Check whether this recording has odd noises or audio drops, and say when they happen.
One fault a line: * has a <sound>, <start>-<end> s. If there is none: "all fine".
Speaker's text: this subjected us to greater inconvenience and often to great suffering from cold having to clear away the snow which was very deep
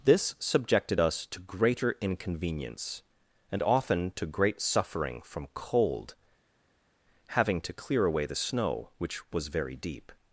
all fine